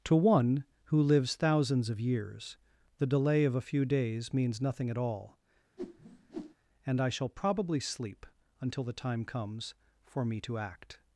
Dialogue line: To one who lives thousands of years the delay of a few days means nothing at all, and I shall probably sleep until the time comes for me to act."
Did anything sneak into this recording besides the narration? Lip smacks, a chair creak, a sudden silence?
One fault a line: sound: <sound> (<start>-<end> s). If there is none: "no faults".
sound: whoosh (5.8-6.6 s)